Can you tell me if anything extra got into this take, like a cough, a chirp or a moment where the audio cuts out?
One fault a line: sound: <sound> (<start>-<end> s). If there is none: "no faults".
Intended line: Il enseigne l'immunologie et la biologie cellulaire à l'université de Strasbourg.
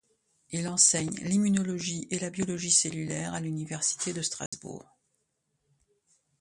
sound: dropout (4.5-4.5 s)